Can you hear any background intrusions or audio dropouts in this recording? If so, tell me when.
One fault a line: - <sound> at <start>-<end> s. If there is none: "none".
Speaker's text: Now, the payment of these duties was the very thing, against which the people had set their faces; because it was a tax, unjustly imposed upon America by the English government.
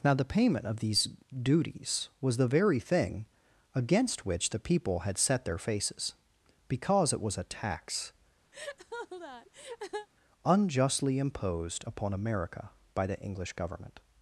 - laugh at 8.5-10.1 s